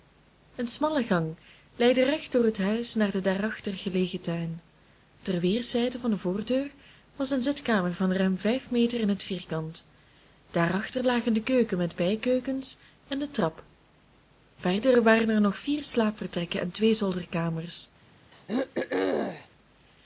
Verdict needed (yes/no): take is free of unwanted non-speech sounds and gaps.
no